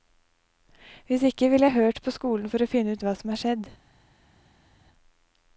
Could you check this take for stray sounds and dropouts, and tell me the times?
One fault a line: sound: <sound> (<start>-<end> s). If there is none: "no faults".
no faults